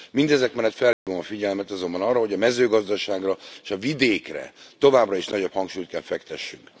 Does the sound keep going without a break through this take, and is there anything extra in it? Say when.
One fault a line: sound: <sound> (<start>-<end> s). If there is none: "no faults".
sound: dropout (0.9-1.1 s)